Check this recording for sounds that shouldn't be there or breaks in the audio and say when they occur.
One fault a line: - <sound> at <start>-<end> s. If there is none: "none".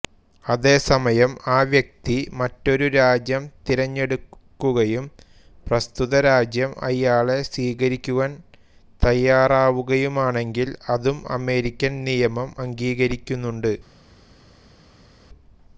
none